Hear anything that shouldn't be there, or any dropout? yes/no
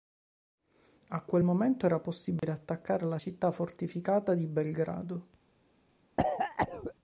yes